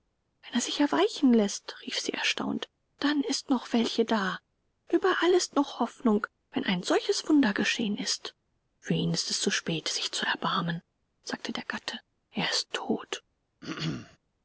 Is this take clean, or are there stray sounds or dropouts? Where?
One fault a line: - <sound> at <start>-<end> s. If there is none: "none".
- throat clearing at 13.6-14.2 s